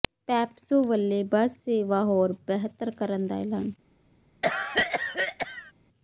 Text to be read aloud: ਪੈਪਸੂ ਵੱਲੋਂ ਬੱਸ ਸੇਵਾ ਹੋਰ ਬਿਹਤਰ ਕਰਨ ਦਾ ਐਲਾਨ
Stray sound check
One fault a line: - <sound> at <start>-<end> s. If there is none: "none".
- cough at 4.4-5.7 s